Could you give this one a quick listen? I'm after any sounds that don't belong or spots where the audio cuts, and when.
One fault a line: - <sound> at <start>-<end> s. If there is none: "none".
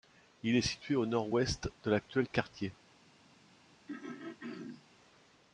- throat clearing at 3.9-4.8 s